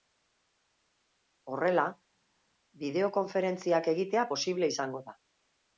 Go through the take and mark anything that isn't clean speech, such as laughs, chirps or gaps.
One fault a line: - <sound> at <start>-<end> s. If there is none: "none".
none